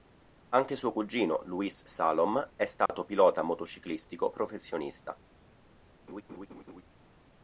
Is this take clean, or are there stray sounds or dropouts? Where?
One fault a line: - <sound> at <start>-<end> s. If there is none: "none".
- dropout at 2.9-2.9 s
- laugh at 6.1-6.8 s